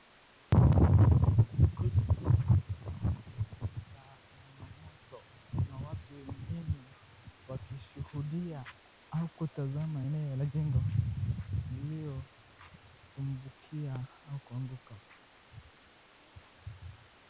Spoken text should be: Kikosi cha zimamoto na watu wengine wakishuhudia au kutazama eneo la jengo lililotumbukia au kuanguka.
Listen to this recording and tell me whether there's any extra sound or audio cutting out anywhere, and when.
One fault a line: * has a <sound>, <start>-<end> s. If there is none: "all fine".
all fine